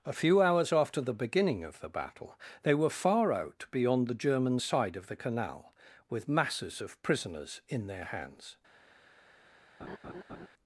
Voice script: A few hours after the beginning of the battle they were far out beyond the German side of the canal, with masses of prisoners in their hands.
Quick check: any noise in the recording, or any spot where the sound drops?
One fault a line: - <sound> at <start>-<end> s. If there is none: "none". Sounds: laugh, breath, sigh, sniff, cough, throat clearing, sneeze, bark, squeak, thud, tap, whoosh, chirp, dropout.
- laugh at 9.8-10.5 s